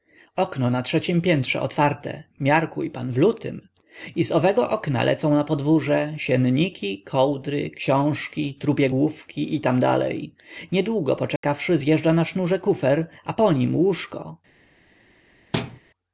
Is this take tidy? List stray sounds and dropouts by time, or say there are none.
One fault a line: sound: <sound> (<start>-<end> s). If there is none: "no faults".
sound: dropout (11.4-11.4 s)
sound: thud (15.5-15.8 s)